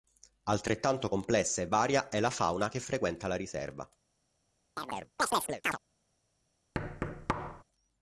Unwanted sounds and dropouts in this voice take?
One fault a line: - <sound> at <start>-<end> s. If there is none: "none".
- chirp at 4.8-5.8 s
- thud at 6.7-7.6 s